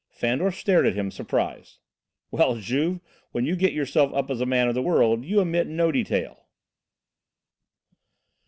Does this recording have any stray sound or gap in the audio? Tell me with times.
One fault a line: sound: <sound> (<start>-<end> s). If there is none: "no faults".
no faults